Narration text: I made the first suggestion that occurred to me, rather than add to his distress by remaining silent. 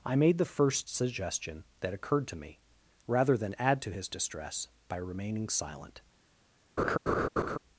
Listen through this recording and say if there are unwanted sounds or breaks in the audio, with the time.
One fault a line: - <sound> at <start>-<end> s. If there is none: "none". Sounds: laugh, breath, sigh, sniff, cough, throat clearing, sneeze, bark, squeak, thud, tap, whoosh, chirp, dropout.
- laugh at 6.8-7.6 s